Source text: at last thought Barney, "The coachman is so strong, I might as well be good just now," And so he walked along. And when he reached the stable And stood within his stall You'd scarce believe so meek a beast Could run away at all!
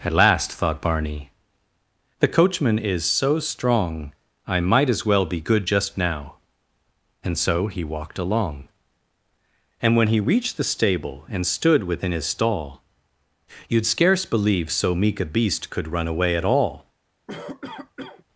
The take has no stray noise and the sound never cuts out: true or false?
false